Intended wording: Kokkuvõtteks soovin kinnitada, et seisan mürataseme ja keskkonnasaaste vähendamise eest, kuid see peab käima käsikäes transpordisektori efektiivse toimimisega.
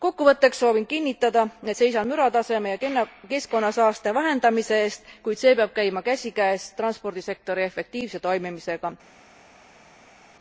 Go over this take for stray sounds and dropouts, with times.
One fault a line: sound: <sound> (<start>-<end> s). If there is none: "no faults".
no faults